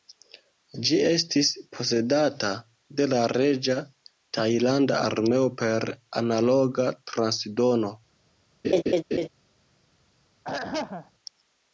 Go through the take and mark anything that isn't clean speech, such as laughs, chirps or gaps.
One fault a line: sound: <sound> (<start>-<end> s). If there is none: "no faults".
sound: laugh (8.6-9.3 s)
sound: throat clearing (10.4-11.1 s)